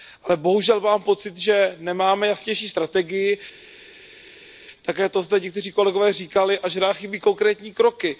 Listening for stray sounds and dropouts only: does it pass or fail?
pass